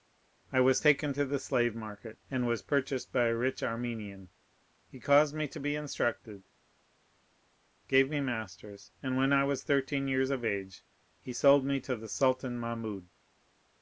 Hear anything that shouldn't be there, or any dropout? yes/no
no